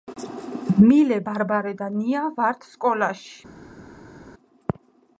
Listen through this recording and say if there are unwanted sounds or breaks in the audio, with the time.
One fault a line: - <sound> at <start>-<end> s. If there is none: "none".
none